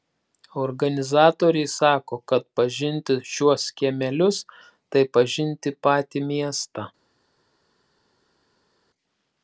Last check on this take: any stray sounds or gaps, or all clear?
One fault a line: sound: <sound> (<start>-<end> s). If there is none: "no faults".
no faults